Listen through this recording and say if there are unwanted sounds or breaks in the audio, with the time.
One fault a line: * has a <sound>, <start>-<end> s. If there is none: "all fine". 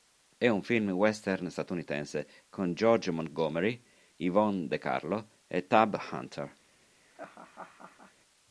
* has a laugh, 7.0-8.1 s